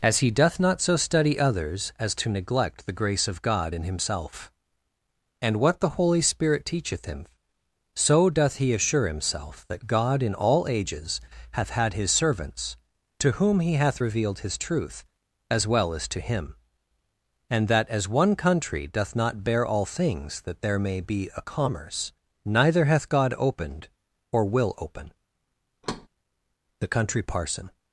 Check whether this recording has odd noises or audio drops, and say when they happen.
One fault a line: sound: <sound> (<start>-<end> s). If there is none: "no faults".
sound: thud (25.8-26.1 s)